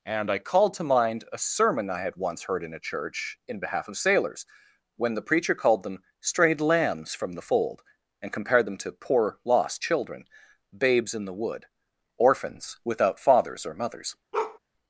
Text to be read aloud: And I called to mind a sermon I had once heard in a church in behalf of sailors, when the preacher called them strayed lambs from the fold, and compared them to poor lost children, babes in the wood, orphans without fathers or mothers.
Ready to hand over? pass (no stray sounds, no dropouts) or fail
fail